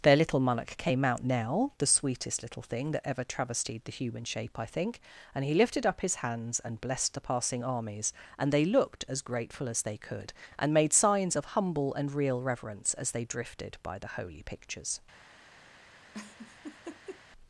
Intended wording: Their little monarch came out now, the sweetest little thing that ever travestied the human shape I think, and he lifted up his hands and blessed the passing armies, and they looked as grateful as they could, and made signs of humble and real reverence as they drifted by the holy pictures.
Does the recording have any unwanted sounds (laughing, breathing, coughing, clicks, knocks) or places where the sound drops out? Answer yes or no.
yes